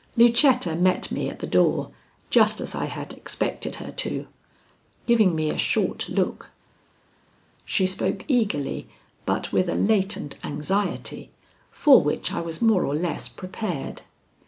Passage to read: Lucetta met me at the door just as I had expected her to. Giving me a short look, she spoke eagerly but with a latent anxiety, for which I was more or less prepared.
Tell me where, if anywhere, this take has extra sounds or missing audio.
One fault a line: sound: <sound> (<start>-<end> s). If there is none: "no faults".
no faults